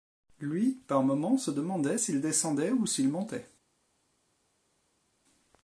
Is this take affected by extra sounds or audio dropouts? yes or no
no